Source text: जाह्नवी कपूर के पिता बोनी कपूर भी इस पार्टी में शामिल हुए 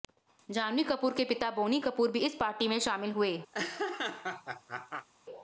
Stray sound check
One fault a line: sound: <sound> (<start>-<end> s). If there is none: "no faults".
sound: laugh (3.5-5.1 s)